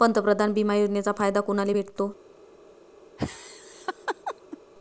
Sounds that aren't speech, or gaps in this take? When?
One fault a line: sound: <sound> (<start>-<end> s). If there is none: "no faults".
sound: laugh (3.2-4.6 s)